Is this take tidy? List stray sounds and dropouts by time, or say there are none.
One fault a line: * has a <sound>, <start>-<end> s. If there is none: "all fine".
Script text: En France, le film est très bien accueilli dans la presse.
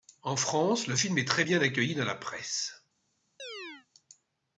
* has a chirp, 3.4-3.9 s